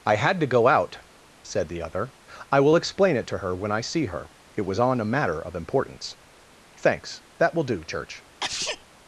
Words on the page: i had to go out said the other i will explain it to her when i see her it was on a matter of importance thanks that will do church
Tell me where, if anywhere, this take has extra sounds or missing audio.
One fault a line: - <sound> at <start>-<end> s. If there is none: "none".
- sneeze at 8.4-8.8 s